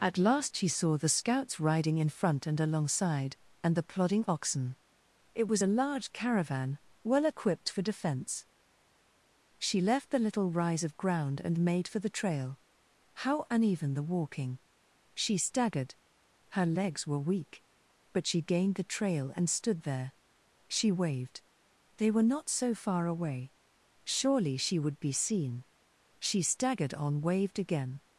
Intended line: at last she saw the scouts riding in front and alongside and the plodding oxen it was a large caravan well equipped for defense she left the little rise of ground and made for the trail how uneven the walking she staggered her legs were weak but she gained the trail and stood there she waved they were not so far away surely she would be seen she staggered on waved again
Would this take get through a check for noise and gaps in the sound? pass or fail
pass